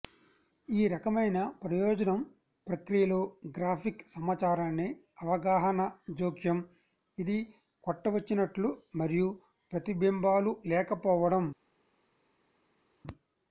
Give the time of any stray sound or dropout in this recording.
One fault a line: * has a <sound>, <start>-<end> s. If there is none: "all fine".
all fine